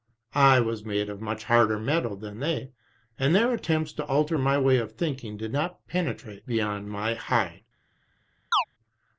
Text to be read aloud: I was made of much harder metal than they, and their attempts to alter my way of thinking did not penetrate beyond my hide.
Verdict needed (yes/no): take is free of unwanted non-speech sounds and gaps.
no